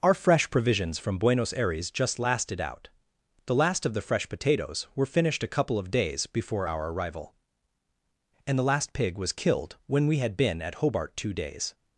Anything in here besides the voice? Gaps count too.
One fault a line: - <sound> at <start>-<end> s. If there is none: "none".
none